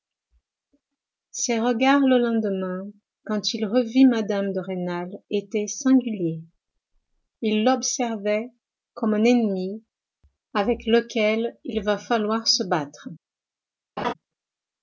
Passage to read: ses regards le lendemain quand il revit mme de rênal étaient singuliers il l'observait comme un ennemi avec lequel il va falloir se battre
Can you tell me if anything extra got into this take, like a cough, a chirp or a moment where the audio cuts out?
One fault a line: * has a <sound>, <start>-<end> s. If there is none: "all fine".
* has a laugh, 14.0-14.1 s